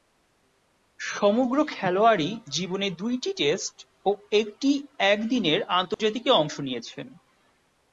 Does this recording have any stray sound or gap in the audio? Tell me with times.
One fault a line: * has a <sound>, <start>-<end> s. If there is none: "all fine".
* has a dropout, 5.9-6.0 s